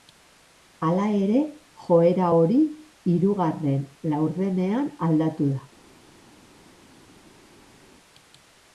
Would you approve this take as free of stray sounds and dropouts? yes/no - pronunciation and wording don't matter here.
yes